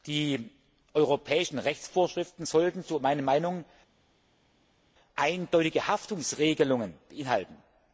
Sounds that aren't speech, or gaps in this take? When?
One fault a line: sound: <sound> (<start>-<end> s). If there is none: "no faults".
no faults